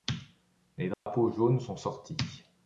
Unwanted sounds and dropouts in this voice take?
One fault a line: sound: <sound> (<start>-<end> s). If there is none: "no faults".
sound: dropout (0.9-1.1 s)